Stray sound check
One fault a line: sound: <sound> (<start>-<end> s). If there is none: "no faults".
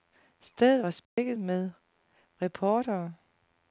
sound: dropout (1.0-1.2 s)